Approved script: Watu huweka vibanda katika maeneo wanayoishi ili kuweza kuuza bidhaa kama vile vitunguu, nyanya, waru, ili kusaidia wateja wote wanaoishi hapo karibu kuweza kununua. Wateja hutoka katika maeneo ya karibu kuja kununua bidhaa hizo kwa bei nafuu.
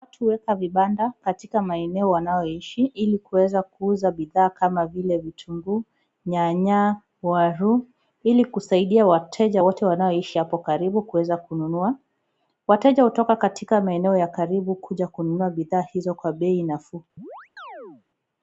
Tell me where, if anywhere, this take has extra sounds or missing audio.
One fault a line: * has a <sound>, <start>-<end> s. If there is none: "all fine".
* has a chirp, 17.2-18.0 s